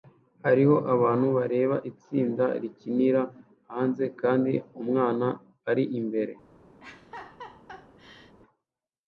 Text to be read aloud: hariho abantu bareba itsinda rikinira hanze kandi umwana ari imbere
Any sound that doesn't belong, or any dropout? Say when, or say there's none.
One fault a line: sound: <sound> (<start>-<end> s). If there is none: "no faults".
sound: laugh (6.8-8.4 s)